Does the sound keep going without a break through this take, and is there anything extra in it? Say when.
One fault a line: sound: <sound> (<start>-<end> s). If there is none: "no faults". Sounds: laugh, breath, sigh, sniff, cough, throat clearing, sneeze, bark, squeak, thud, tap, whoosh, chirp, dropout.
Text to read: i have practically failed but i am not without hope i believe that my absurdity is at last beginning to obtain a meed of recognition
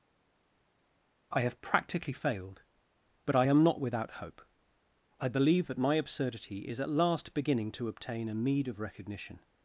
no faults